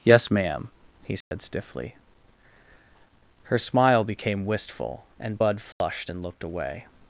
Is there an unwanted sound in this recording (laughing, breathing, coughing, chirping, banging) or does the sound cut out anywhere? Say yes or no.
yes